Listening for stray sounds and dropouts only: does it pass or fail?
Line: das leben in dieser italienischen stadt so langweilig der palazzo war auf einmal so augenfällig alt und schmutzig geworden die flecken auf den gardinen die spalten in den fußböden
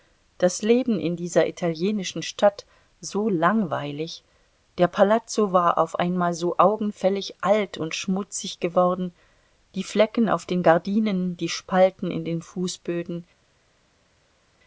pass